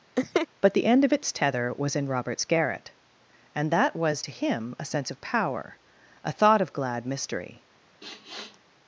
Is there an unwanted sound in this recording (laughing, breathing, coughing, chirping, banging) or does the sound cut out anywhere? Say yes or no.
yes